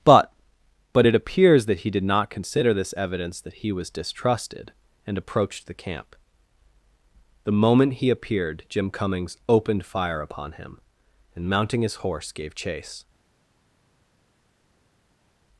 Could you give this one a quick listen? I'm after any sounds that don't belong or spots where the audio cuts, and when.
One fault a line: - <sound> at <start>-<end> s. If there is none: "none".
none